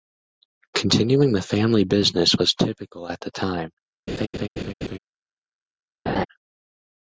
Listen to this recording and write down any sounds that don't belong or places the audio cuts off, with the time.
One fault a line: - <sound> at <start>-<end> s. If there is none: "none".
- laugh at 4.1-5.0 s
- laugh at 6.1-6.3 s